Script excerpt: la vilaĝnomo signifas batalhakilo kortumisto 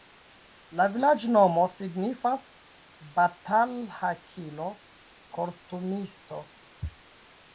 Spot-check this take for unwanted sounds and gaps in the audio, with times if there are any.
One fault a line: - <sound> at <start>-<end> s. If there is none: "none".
none